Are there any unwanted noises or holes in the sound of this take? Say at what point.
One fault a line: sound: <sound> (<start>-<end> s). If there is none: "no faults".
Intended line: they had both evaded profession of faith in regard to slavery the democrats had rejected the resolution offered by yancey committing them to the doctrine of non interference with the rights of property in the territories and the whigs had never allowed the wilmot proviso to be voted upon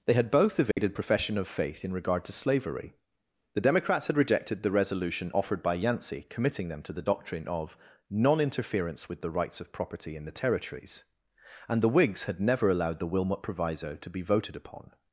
sound: dropout (0.7-0.8 s)